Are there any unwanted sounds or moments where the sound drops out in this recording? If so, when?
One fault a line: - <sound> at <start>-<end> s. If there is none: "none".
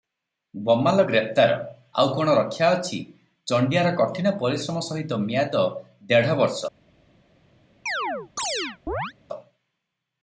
- chirp at 7.9-9.1 s